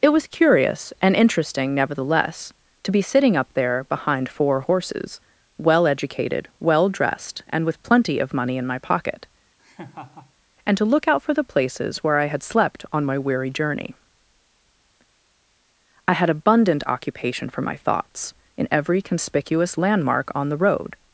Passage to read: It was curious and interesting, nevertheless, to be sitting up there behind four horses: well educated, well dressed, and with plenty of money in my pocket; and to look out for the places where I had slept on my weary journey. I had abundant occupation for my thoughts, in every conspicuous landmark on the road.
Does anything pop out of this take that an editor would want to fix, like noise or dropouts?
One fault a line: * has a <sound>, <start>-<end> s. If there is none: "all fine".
* has a laugh, 9.6-10.3 s